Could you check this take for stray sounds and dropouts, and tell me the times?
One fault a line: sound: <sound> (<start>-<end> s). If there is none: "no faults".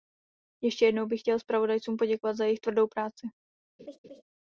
sound: laugh (3.8-4.2 s)